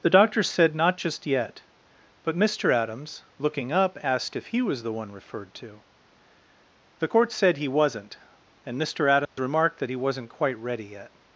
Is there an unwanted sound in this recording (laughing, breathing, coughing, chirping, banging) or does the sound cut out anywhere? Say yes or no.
yes